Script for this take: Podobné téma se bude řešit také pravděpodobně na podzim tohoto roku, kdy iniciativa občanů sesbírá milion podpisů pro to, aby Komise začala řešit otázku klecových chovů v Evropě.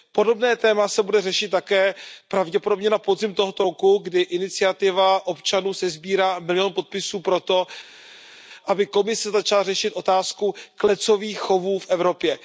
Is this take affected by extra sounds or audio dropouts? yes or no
no